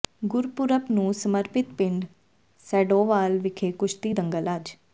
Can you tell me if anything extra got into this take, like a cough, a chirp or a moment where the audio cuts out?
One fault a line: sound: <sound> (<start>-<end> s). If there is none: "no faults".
no faults